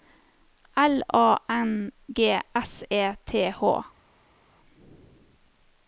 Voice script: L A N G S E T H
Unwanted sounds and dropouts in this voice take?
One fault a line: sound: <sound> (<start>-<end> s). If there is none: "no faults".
no faults